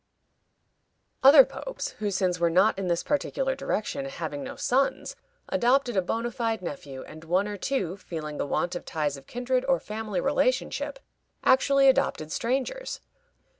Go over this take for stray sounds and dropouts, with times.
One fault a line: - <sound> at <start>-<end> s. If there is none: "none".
none